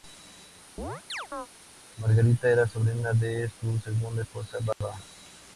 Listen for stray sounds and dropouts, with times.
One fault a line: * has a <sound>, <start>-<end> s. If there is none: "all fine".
* has a chirp, 0.8-1.5 s
* has a dropout, 4.7-4.8 s